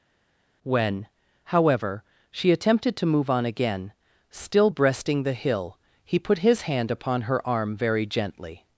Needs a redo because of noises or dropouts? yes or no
no